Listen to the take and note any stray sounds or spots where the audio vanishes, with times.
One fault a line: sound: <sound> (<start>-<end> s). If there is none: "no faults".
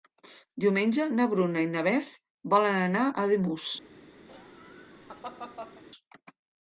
sound: laugh (4.3-5.8 s)